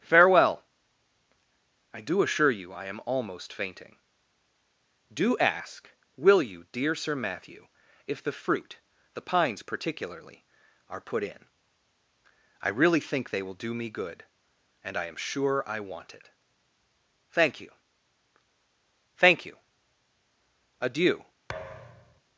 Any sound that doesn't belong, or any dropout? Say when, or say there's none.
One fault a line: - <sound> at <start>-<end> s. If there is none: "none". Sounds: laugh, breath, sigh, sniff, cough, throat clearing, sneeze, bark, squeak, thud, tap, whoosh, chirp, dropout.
- thud at 21.5-22.2 s